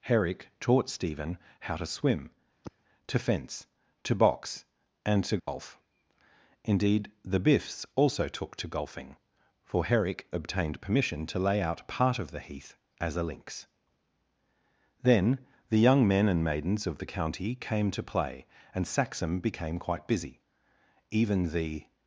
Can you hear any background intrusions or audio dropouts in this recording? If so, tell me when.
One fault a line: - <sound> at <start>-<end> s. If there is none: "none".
- sigh at 2.6-2.8 s
- dropout at 5.4-5.5 s